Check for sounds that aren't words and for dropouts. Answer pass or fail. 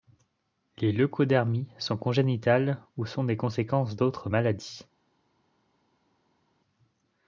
pass